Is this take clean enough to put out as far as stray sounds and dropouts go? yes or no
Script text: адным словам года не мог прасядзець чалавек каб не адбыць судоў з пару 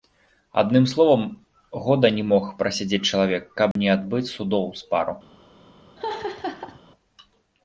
no